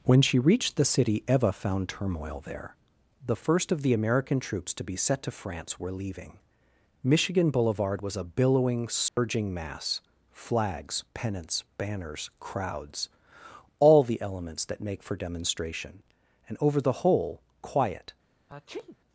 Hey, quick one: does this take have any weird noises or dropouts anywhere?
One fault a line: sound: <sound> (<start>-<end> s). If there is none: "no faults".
sound: dropout (9.1-9.2 s)
sound: sneeze (18.5-19.0 s)